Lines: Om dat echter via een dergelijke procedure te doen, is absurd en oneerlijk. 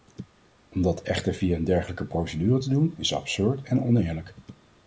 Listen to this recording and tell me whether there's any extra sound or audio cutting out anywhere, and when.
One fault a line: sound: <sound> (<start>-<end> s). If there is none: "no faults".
no faults